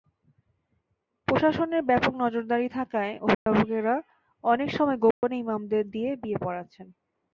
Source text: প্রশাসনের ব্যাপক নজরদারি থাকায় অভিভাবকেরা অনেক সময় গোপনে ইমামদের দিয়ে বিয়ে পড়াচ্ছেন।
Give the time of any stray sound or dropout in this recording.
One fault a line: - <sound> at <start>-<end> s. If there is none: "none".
- dropout at 3.3-3.5 s
- dropout at 5.1-5.2 s